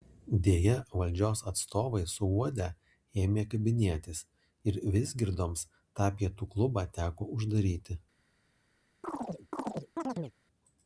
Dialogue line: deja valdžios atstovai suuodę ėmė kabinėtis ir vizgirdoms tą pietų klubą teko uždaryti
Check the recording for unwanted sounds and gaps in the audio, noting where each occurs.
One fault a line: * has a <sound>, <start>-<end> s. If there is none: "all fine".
* has a chirp, 9.0-10.3 s